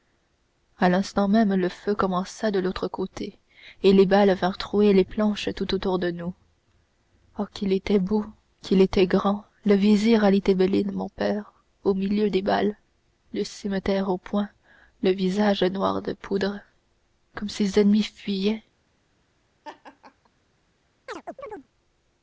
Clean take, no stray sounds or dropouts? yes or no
no